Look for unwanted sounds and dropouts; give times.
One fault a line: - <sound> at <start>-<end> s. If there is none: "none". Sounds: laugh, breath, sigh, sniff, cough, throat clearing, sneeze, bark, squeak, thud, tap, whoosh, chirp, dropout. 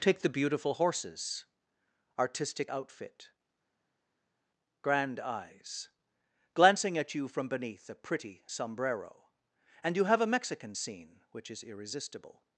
none